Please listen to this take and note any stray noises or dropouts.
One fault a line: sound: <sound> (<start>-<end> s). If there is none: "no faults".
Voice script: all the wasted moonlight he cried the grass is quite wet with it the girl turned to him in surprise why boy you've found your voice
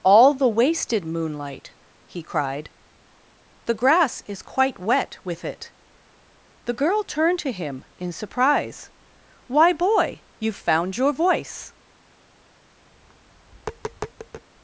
sound: tap (12.9-14.5 s)